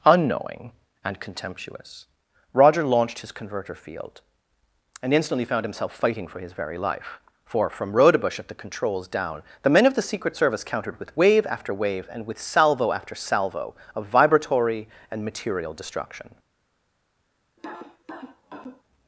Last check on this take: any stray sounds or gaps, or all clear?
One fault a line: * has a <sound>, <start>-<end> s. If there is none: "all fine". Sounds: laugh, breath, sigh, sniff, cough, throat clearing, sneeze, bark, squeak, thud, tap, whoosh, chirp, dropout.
* has a cough, 17.6-18.8 s